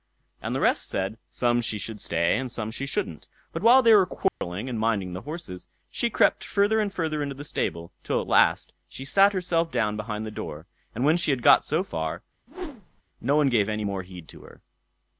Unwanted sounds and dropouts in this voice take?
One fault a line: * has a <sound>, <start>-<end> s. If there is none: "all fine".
* has a dropout, 4.3-4.4 s
* has a whoosh, 12.5-13.0 s